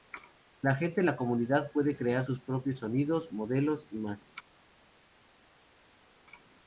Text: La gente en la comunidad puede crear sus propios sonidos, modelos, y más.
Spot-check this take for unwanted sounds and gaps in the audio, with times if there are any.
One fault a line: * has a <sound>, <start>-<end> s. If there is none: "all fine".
all fine